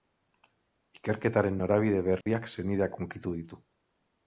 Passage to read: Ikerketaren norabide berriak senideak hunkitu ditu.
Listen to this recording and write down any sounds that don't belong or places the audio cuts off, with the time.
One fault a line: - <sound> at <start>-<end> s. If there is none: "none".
- dropout at 2.2-2.3 s